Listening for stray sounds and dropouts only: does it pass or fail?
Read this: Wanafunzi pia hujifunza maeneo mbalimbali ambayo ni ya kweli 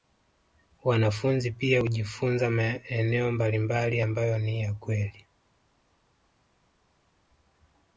pass